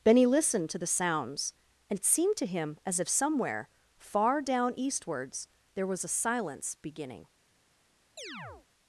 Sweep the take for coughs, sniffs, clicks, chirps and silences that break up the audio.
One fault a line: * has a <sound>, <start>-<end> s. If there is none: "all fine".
* has a chirp, 8.2-8.7 s